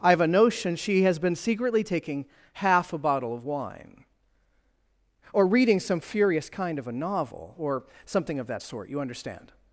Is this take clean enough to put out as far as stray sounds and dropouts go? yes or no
yes